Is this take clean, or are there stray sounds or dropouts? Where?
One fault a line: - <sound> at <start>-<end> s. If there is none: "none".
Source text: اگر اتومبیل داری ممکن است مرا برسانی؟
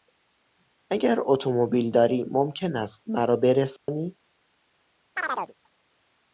- dropout at 3.8-3.9 s
- chirp at 5.2-5.5 s